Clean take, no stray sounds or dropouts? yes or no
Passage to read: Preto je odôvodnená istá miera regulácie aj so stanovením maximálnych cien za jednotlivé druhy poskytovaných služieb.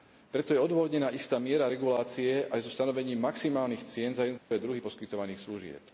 no